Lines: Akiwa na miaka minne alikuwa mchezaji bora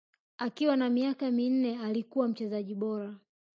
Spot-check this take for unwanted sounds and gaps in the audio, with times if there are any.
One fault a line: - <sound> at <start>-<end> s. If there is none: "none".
none